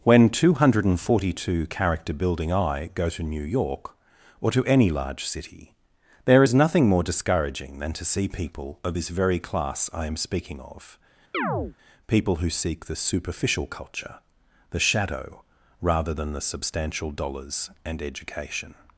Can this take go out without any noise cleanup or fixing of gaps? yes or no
no